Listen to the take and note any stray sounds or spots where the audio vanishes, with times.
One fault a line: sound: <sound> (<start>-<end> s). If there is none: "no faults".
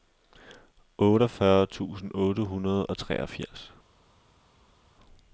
no faults